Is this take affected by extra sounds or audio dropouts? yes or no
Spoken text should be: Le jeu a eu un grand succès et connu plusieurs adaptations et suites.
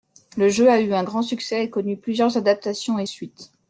no